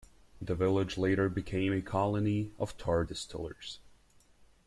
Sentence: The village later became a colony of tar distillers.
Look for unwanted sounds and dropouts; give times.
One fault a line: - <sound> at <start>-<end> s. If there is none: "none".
none